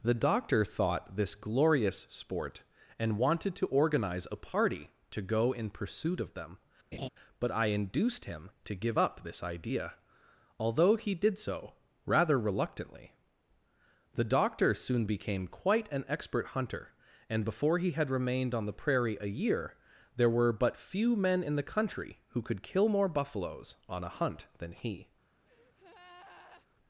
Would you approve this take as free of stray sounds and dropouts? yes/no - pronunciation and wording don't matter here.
no